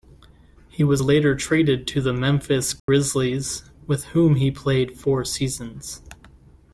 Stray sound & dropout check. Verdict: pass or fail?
fail